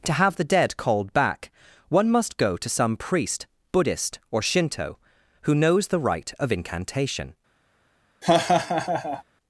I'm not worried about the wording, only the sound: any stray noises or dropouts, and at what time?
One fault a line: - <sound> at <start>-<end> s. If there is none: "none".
- laugh at 8.2-9.2 s